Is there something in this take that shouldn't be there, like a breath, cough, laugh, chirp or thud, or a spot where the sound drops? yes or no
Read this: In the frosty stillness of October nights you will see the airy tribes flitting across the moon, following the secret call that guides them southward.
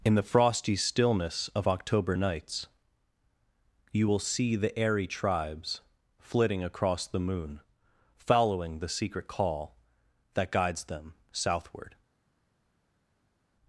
no